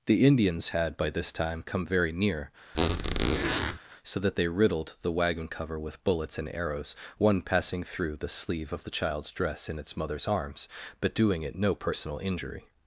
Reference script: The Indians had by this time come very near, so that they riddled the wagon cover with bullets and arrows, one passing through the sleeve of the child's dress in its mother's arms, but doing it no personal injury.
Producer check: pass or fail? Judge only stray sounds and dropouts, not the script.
fail